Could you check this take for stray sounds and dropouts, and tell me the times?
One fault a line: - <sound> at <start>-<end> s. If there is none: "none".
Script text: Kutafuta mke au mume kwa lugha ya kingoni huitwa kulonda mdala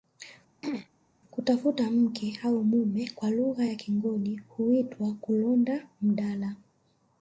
- throat clearing at 0.6-0.9 s